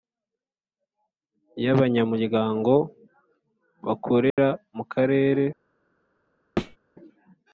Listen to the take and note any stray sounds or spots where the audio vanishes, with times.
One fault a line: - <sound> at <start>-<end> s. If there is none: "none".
- dropout at 4.3-4.4 s
- thud at 6.6-6.8 s